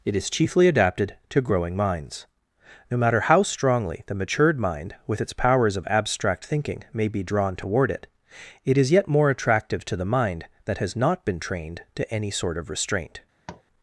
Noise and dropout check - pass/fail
fail